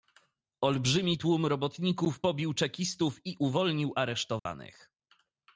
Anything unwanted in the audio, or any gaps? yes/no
yes